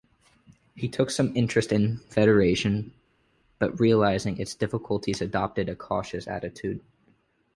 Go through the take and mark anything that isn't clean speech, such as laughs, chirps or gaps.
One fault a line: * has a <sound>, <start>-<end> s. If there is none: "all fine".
all fine